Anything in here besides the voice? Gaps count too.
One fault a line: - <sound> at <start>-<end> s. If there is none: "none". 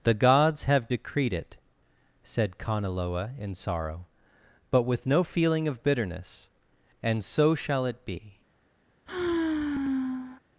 - sigh at 9.1-10.4 s